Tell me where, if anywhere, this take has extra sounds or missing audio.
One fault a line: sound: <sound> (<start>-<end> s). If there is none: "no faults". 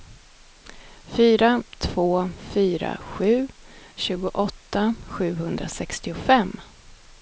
no faults